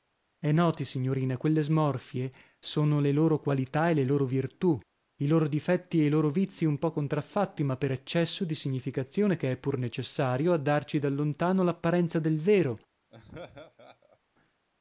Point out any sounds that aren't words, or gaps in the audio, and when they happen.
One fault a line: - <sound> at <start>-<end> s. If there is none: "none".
- laugh at 13.1-14.2 s